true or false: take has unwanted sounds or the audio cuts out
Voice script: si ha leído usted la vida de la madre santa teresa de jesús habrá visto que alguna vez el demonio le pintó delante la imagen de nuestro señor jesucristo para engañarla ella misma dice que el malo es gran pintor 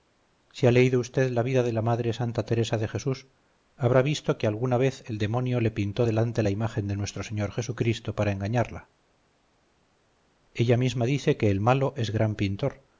false